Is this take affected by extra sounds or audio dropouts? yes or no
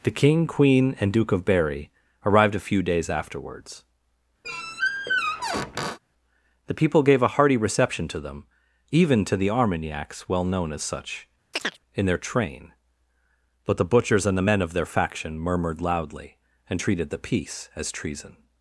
yes